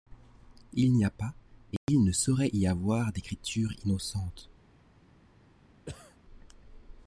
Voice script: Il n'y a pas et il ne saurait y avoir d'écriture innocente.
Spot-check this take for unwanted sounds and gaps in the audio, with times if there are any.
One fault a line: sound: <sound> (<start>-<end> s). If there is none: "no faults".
sound: cough (5.9-6.2 s)